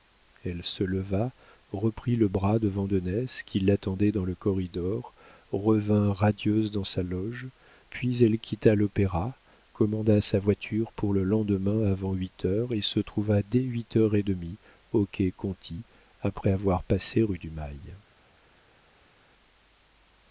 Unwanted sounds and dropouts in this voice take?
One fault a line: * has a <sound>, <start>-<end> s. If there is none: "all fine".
all fine